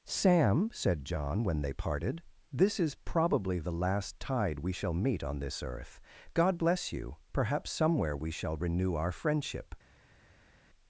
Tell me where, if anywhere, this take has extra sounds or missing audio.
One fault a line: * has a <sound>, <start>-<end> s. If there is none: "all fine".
all fine